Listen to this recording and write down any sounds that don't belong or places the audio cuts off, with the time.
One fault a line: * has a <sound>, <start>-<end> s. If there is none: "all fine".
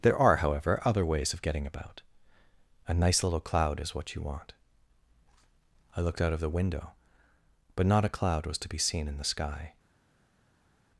all fine